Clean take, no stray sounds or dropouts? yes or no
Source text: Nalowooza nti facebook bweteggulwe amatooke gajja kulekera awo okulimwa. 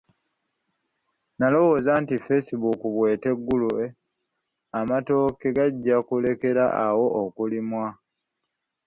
yes